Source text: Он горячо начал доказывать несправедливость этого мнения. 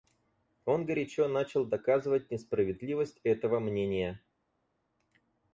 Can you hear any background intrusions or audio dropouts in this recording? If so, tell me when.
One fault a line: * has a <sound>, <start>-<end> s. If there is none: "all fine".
all fine